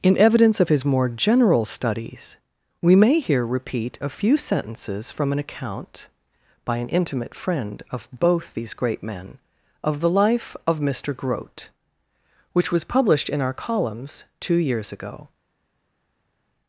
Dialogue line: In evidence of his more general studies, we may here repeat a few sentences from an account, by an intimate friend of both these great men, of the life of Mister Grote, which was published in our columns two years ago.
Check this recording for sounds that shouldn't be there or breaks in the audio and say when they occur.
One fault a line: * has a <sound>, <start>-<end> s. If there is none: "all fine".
all fine